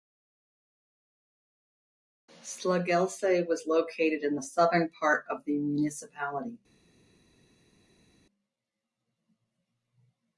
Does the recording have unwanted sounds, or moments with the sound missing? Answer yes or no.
no